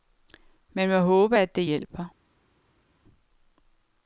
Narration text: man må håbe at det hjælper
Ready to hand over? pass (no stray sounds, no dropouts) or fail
pass